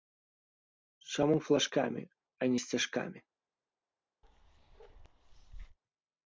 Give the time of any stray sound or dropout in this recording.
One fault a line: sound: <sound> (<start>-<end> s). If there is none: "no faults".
sound: bark (4.2-5.8 s)